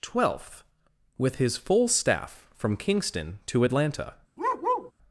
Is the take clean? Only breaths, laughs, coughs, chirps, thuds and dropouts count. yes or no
no